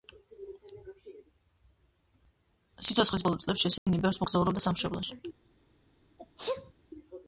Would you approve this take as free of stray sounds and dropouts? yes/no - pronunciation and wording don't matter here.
no